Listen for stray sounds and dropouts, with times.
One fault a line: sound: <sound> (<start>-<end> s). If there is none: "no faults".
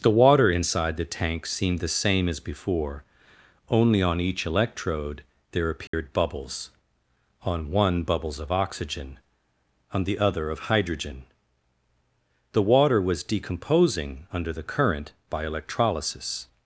sound: dropout (5.9-5.9 s)